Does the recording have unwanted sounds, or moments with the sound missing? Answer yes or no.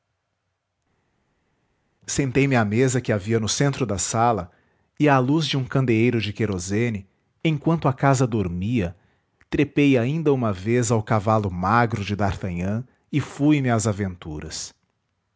no